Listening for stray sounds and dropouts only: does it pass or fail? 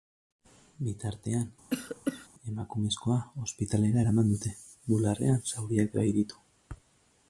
fail